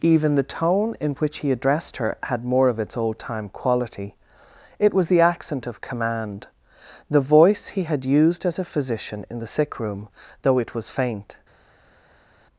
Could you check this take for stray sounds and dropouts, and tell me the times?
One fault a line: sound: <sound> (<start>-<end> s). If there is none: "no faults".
no faults